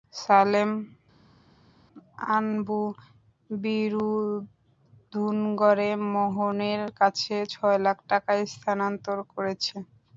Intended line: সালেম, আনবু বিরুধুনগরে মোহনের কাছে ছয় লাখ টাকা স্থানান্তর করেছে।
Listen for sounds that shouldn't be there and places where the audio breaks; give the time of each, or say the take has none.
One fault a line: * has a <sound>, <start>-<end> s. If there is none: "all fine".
all fine